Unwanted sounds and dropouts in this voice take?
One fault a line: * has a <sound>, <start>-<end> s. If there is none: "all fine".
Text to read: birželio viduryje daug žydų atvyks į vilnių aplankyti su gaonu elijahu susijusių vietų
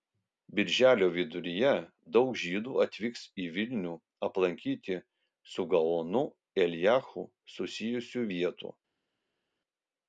all fine